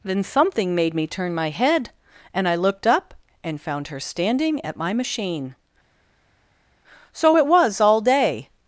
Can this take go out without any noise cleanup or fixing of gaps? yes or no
yes